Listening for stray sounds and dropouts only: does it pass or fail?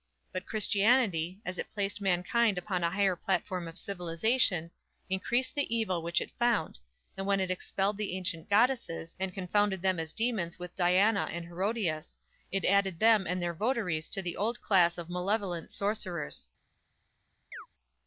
fail